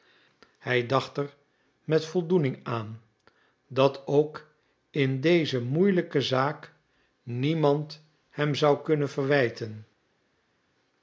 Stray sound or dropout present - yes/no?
no